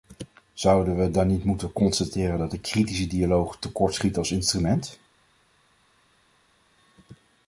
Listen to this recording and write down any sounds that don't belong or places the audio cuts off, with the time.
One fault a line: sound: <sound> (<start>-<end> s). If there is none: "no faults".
no faults